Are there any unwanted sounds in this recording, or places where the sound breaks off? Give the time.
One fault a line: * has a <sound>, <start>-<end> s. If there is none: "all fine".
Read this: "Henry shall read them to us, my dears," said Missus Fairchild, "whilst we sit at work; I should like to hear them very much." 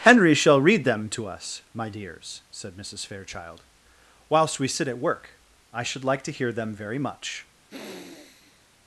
* has a sniff, 7.7-8.7 s